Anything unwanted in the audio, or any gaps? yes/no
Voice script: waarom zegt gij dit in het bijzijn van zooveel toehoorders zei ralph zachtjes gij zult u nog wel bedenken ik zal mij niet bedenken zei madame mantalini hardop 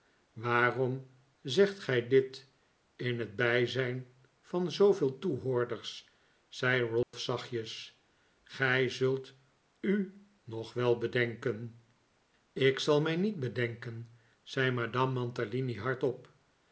yes